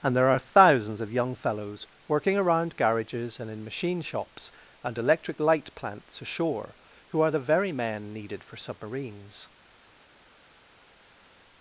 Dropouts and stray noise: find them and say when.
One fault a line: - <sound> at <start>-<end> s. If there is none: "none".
none